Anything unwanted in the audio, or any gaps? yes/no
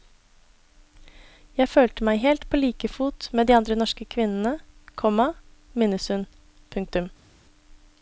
no